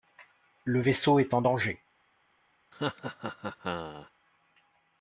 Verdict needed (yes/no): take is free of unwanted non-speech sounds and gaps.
no